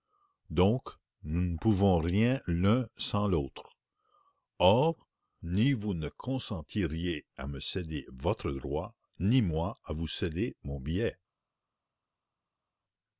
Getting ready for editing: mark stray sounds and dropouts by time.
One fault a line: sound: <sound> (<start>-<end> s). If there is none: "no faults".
no faults